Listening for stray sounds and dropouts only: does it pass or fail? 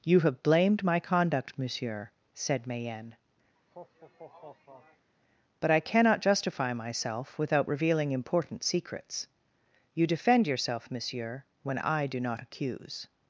fail